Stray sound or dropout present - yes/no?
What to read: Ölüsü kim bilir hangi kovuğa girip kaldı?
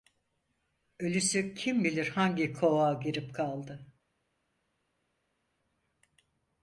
no